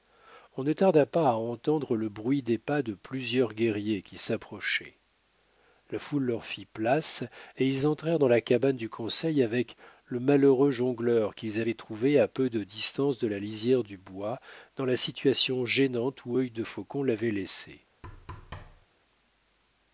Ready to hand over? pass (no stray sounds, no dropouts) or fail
fail